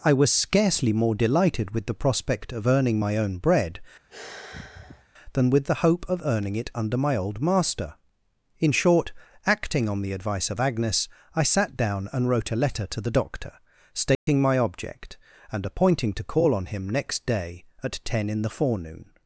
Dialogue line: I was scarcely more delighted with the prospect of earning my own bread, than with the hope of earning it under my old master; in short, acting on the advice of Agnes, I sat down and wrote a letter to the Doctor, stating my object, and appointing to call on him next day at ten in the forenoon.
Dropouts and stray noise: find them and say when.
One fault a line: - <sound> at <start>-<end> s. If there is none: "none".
- sigh at 4.1-5.1 s
- dropout at 14.1-14.3 s